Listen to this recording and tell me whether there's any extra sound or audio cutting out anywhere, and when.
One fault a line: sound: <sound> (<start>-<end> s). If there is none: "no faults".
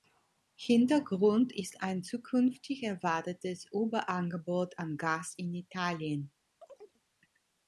sound: chirp (6.6-7.0 s)